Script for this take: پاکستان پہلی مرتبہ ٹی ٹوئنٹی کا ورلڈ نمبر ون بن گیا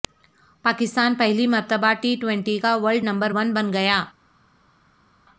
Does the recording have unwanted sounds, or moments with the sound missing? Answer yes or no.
no